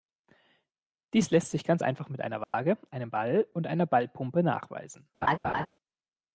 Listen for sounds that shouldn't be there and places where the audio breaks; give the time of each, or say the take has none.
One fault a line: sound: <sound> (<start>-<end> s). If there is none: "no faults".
sound: dropout (2.4-2.5 s)
sound: laugh (5.2-5.7 s)